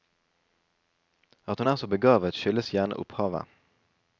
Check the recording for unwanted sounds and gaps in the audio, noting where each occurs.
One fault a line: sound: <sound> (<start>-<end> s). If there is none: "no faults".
no faults